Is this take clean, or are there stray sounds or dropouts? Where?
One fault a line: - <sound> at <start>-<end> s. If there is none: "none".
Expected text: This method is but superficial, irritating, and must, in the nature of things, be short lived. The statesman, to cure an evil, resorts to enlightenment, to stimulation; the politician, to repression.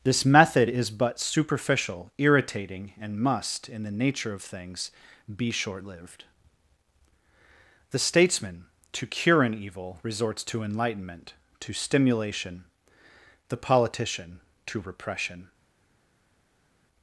none